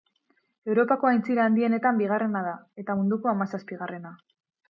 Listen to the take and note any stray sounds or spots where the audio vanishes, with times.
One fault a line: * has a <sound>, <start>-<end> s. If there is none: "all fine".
all fine